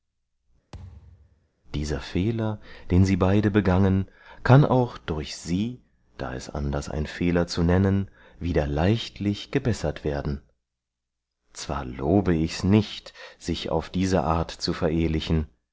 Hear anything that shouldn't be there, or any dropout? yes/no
yes